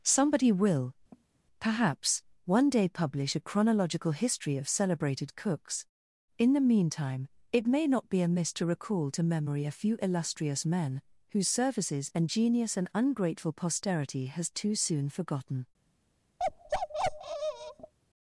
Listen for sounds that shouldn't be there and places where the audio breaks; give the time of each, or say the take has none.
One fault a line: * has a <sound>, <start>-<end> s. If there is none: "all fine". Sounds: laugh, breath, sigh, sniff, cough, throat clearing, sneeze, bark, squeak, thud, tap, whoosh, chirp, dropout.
* has a cough, 1.1-1.4 s
* has a bark, 16.4-17.9 s